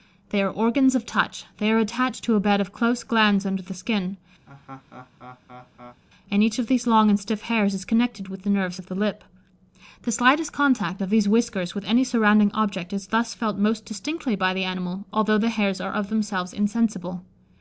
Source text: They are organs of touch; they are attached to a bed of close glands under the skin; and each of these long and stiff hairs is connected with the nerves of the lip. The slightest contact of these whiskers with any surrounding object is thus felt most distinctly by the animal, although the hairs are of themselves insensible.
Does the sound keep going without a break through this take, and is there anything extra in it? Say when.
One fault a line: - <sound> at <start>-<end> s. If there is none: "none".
- laugh at 4.5-6.0 s